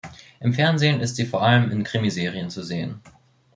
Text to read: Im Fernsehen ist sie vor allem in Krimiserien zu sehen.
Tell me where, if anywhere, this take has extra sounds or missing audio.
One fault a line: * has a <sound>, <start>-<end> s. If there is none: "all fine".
all fine